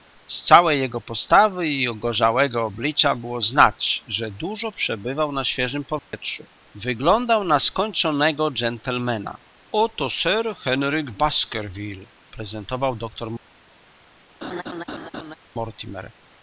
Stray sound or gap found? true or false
true